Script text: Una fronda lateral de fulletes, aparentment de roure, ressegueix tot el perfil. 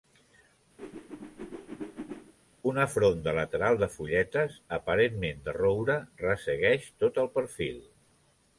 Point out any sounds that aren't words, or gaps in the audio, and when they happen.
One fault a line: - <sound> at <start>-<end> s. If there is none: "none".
- whoosh at 0.8-2.3 s